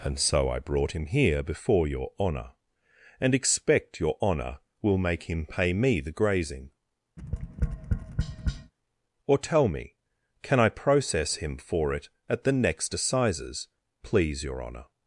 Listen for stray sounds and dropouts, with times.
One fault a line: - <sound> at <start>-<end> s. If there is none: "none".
- tap at 7.2-8.7 s